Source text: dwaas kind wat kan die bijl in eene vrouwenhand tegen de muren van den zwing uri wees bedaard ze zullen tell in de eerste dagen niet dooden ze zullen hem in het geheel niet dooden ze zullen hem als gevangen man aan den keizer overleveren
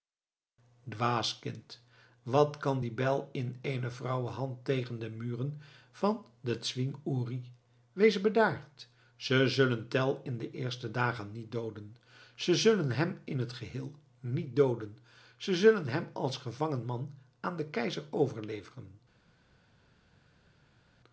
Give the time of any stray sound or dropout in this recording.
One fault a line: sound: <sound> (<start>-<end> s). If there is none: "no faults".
no faults